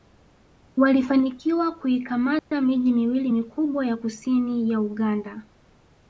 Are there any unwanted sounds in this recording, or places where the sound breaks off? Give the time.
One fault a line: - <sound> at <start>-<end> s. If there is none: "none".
- dropout at 2.4-2.5 s